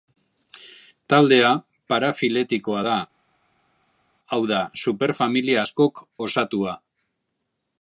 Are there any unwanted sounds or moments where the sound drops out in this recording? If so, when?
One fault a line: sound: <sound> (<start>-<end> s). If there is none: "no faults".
no faults